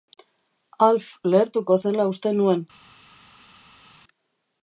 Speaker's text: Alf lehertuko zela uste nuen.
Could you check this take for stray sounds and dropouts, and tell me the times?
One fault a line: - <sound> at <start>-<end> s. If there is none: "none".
none